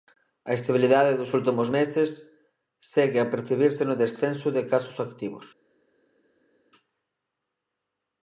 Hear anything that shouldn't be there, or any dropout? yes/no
no